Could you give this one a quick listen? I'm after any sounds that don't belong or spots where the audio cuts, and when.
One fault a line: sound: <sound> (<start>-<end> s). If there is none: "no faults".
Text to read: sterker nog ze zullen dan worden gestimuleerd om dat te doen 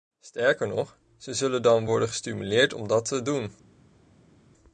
no faults